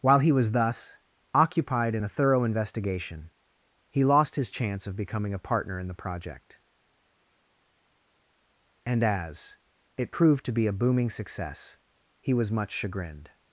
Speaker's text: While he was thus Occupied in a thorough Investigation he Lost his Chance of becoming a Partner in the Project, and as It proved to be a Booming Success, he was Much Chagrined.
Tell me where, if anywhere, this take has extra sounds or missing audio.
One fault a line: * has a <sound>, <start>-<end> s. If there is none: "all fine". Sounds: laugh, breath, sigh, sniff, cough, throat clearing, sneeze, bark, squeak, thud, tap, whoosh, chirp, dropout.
all fine